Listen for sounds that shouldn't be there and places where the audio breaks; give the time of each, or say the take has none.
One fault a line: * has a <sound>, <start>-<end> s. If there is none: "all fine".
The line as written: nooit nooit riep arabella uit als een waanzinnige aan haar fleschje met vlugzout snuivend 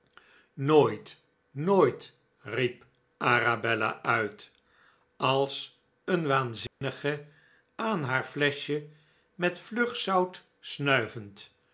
* has a dropout, 6.7-6.8 s